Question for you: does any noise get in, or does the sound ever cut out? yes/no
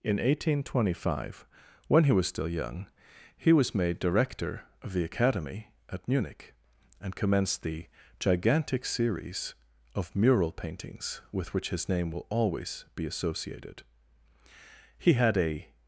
no